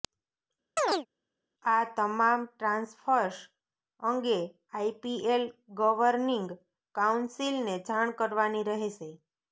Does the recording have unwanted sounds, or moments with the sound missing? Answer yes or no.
yes